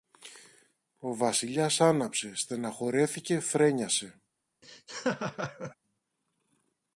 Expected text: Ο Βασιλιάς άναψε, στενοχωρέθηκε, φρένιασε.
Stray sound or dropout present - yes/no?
yes